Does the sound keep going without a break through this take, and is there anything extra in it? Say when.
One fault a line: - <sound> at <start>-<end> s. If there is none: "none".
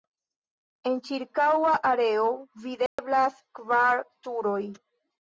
- dropout at 2.9-3.0 s